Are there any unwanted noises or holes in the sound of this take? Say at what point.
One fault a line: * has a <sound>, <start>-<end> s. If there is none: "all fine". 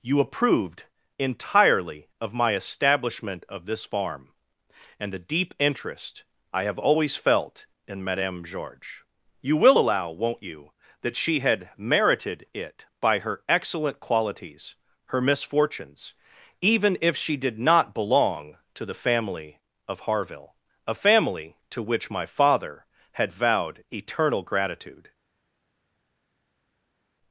all fine